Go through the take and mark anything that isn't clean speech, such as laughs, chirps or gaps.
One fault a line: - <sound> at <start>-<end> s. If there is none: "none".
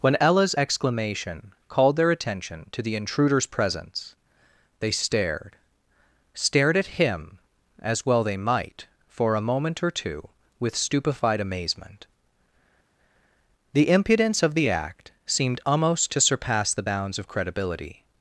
none